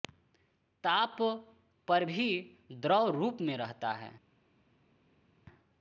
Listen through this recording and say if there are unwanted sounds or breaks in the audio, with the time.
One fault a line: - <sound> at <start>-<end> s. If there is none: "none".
none